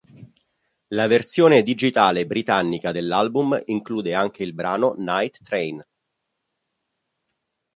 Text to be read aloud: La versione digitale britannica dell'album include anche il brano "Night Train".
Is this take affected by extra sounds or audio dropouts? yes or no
no